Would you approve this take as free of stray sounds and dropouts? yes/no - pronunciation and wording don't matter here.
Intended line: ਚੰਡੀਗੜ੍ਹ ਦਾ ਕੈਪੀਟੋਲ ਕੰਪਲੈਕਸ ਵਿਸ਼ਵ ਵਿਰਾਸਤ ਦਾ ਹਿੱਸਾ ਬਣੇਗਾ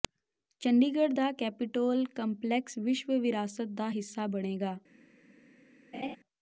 no